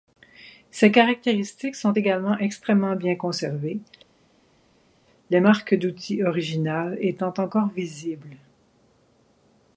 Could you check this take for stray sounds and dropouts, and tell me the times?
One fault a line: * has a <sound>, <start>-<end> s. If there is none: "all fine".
all fine